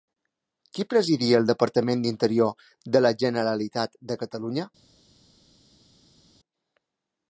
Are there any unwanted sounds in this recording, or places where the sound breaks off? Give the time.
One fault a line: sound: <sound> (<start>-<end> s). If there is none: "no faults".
no faults